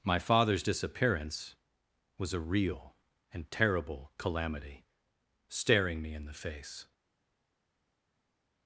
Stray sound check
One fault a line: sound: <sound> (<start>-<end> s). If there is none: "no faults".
no faults